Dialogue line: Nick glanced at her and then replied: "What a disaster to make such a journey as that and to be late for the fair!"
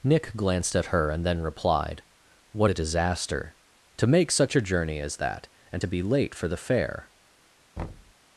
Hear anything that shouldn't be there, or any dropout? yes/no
yes